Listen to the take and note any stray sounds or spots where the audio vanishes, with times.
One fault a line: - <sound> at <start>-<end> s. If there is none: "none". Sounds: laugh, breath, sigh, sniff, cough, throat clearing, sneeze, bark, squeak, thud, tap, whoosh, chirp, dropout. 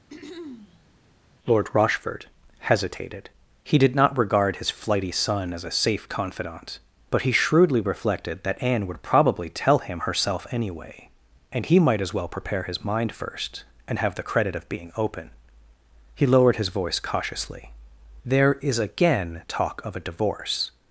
- throat clearing at 0.1-0.9 s